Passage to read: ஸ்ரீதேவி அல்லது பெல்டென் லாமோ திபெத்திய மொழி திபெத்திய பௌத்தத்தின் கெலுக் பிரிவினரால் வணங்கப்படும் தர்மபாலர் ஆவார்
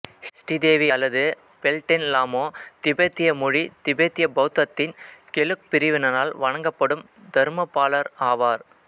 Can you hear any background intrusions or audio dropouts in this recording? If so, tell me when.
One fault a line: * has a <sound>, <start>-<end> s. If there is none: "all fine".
all fine